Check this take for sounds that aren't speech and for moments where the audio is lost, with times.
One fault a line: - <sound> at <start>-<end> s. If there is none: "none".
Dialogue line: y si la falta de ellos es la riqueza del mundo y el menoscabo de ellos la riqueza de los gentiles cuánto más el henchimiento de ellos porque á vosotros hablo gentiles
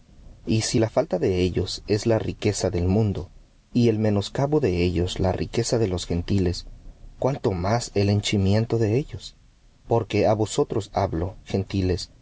none